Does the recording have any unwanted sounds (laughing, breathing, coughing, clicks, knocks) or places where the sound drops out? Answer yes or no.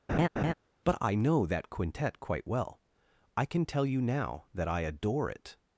yes